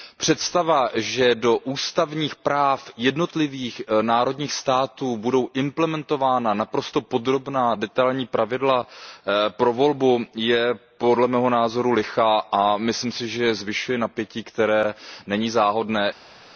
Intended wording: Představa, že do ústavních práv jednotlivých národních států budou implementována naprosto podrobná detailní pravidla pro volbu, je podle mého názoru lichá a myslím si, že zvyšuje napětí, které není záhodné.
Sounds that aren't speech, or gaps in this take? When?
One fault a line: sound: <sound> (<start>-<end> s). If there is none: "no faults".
no faults